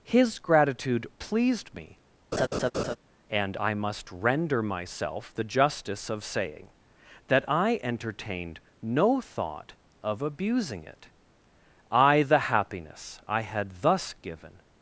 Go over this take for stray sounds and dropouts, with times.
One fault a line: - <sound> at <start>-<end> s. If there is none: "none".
- laugh at 2.3-3.0 s